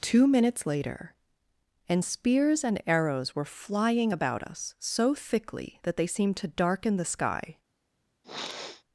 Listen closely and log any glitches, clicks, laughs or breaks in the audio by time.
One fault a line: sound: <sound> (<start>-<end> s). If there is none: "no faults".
sound: sniff (8.2-8.8 s)